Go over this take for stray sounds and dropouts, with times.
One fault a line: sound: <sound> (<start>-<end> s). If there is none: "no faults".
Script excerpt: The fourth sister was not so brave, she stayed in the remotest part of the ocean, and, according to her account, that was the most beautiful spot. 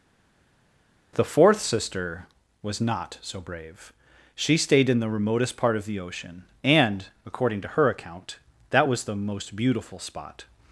no faults